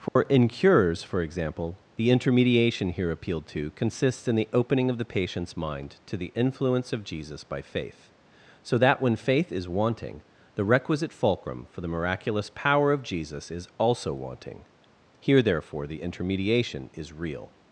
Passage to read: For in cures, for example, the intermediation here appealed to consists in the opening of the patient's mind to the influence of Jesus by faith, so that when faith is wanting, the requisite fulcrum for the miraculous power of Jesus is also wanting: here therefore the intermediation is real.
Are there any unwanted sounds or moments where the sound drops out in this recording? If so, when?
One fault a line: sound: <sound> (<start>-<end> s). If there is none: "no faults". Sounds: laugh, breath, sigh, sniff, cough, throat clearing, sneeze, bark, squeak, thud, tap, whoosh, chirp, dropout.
sound: dropout (0.1-0.2 s)